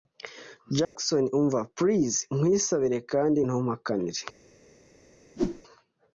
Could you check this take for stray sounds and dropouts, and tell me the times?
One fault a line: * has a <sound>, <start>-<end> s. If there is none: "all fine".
* has a dropout, 0.8-1.0 s
* has a whoosh, 5.4-5.6 s